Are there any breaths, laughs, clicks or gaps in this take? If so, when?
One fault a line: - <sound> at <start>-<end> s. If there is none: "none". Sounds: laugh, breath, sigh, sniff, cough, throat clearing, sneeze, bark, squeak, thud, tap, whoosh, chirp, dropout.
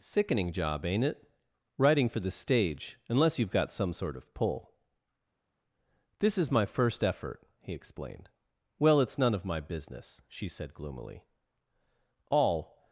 none